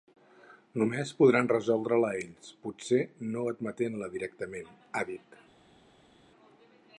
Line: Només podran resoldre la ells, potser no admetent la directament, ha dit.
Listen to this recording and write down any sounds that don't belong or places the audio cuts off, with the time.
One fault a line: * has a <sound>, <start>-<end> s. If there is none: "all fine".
all fine